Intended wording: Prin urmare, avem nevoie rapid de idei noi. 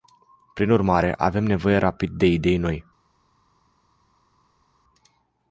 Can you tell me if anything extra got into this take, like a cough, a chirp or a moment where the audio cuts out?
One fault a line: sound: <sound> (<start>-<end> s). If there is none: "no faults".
no faults